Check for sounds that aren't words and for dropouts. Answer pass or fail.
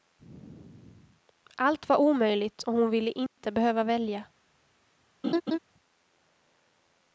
fail